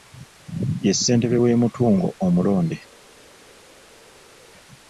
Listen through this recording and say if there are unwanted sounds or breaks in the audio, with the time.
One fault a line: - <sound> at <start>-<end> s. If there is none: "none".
none